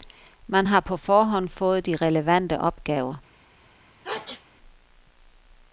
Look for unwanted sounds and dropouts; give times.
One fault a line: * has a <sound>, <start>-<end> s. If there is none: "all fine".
* has a sneeze, 4.0-4.4 s